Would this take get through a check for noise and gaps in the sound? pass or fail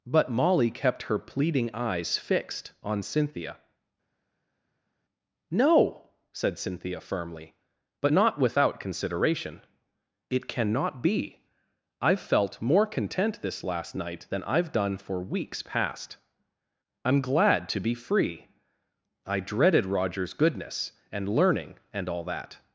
pass